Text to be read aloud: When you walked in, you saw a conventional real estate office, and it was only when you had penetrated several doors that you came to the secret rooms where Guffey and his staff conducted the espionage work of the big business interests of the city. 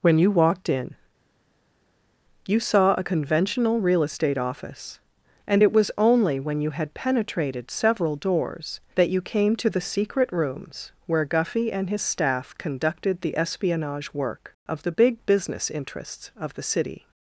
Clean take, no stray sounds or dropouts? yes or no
yes